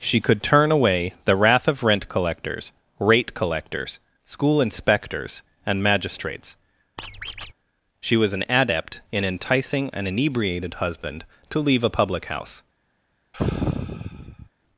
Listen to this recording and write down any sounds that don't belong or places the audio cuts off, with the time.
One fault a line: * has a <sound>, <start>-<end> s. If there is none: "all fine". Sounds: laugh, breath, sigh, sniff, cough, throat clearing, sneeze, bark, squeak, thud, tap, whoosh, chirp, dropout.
* has a squeak, 7.0-7.5 s
* has a sigh, 13.3-14.5 s